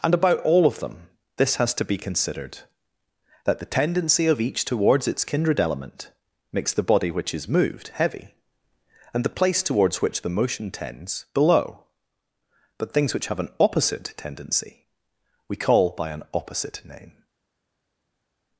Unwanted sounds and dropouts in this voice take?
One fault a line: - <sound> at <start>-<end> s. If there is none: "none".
none